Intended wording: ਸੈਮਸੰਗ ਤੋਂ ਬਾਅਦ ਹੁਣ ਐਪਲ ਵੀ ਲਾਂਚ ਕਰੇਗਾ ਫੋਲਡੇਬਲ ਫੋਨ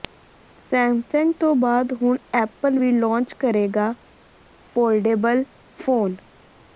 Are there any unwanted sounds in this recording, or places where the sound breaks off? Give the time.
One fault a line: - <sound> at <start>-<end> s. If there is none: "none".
none